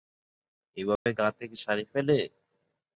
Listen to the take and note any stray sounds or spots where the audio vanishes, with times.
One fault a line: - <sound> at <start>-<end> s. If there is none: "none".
- dropout at 1.0-1.1 s